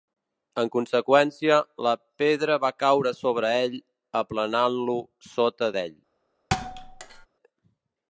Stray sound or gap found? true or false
true